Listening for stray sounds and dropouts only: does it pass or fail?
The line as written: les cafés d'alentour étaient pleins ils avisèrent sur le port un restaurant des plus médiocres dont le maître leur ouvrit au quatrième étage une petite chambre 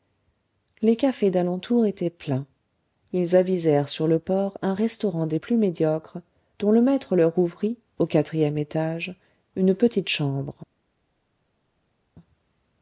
pass